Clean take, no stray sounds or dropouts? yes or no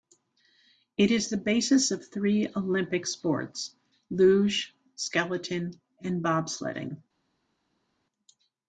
yes